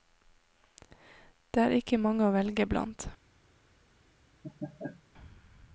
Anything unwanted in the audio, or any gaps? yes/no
yes